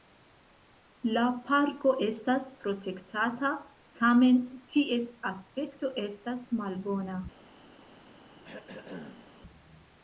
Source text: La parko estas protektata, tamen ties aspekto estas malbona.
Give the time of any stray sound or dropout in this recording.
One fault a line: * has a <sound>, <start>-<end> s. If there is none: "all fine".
* has a throat clearing, 8.4-9.4 s